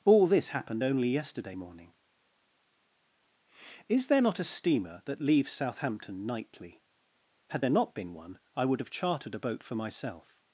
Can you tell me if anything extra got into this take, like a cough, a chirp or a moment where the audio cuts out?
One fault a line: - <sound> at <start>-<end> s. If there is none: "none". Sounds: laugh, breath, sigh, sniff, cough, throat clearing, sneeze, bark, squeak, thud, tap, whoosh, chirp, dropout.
none